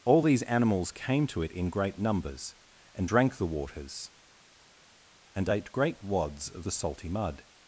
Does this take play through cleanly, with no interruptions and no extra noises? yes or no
yes